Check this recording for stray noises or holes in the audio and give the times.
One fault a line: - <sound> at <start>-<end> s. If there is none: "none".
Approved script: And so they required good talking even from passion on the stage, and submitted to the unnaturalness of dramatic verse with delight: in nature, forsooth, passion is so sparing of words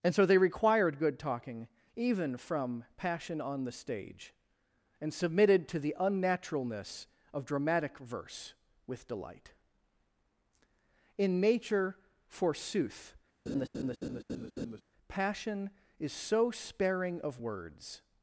- laugh at 13.5-14.8 s